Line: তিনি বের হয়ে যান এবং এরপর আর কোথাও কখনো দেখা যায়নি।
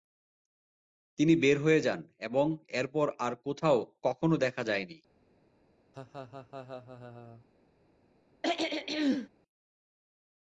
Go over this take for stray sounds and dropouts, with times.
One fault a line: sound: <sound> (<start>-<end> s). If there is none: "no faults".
sound: laugh (5.9-7.5 s)
sound: throat clearing (8.4-9.3 s)